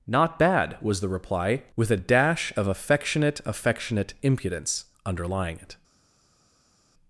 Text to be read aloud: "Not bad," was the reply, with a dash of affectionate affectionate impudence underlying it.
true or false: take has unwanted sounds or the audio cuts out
false